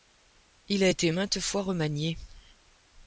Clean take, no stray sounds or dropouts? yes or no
yes